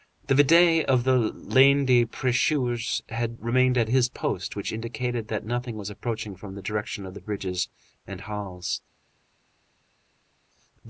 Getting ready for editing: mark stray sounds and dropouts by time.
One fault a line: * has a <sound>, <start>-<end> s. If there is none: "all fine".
all fine